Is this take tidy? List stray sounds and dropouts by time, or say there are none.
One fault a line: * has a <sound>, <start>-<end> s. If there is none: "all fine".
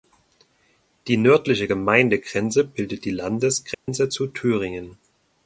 * has a dropout, 3.7-3.9 s